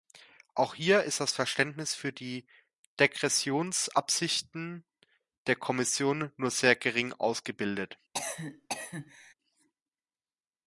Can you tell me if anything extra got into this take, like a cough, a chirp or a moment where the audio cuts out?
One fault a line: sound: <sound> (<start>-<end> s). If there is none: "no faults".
sound: cough (8.1-9.3 s)